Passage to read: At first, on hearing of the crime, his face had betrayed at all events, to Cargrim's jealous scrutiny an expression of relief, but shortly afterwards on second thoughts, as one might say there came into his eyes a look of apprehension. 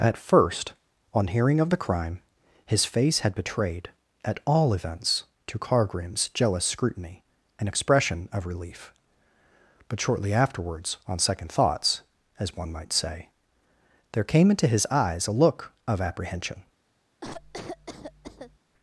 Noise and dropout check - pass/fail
fail